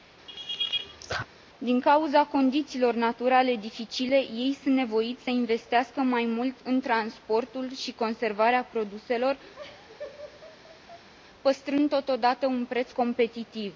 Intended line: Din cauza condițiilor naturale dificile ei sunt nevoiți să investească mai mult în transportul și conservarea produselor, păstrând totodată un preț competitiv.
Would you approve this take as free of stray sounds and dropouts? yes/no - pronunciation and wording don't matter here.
no